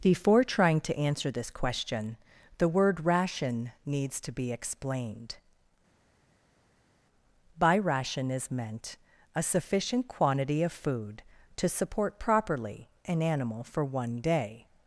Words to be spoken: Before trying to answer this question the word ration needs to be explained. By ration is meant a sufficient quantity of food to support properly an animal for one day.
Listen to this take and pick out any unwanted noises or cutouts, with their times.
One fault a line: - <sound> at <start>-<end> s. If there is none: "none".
none